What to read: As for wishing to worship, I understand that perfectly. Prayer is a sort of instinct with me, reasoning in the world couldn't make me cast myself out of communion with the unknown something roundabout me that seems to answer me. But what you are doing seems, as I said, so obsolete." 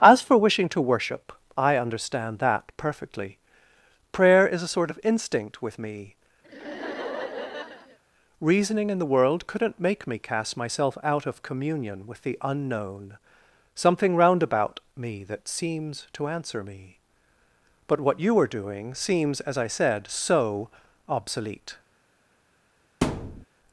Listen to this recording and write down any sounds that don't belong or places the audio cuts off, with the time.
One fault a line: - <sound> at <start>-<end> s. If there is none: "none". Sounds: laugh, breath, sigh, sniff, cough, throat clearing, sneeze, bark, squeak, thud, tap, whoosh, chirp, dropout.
- laugh at 6.4-8.0 s
- thud at 23.0-23.5 s